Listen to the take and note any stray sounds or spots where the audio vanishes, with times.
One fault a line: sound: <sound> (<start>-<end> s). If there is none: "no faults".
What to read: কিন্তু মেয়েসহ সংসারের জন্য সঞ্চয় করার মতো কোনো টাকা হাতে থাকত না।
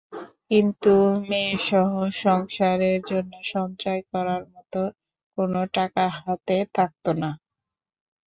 no faults